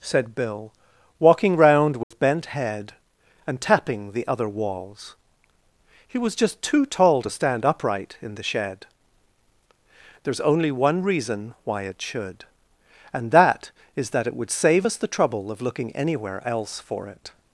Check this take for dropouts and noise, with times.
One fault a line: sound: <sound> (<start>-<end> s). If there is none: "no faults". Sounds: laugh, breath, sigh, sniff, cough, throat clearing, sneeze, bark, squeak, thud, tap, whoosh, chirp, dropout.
sound: dropout (2.0-2.1 s)